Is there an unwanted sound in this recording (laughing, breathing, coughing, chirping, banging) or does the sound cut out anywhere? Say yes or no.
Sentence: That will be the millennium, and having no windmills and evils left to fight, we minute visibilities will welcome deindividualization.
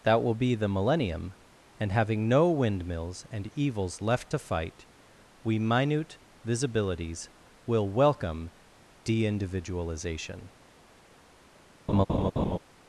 yes